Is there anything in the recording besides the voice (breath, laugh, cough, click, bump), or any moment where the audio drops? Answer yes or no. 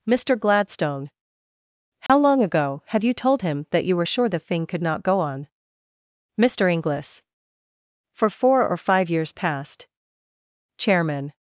yes